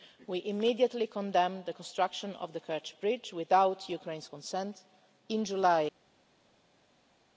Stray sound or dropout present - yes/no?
no